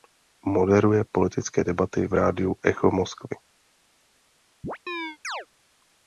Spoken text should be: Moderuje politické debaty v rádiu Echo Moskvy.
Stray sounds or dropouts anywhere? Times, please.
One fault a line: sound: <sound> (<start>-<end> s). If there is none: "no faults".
sound: chirp (4.6-5.5 s)